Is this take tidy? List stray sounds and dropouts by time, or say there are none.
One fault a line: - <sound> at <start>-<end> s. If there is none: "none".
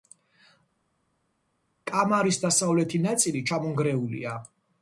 none